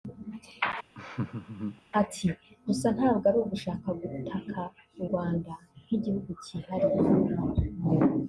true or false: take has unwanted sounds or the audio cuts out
true